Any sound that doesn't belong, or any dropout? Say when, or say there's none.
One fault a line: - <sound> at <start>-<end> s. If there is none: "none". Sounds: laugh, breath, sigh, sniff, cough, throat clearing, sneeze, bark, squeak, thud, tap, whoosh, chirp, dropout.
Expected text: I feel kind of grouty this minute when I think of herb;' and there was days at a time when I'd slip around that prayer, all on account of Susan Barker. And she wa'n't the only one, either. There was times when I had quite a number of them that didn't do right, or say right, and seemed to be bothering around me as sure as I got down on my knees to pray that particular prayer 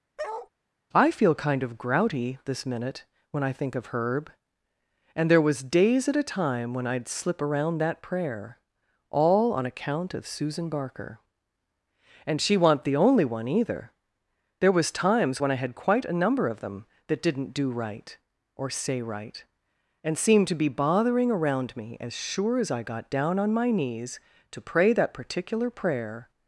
- bark at 0.2-0.5 s